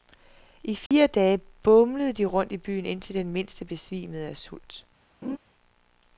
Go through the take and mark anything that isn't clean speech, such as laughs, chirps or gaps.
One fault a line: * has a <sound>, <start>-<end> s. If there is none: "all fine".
* has a dropout, 0.9-0.9 s
* has a laugh, 5.2-5.4 s